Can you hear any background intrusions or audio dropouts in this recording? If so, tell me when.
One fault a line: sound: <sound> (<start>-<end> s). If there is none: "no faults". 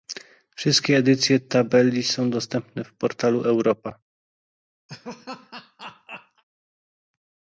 sound: laugh (4.9-6.4 s)